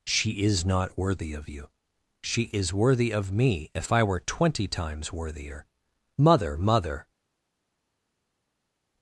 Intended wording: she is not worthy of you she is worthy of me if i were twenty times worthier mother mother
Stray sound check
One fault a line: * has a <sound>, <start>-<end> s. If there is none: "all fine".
all fine